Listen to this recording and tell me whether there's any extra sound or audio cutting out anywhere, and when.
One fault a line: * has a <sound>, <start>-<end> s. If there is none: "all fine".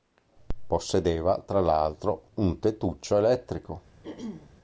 * has a throat clearing, 4.0-4.5 s